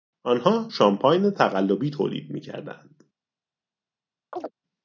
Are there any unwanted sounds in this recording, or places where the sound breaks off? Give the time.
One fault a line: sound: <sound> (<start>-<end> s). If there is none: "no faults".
sound: chirp (4.3-4.5 s)